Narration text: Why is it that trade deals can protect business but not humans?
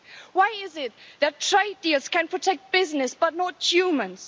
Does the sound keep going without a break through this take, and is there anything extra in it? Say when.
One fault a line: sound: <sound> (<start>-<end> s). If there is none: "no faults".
no faults